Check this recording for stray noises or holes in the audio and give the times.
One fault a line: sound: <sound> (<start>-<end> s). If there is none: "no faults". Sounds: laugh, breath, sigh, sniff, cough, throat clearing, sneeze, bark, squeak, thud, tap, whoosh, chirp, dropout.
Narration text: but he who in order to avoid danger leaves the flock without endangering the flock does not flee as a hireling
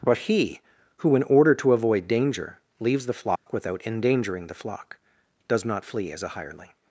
sound: dropout (3.4-3.5 s)